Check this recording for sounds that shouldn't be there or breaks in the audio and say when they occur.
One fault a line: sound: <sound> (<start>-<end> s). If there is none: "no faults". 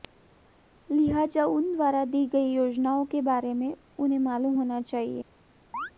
sound: chirp (5.7-5.9 s)